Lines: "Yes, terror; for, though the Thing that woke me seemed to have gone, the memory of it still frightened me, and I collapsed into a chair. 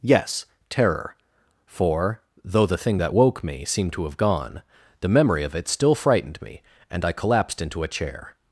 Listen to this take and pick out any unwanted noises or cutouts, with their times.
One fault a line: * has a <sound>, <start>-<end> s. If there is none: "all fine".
all fine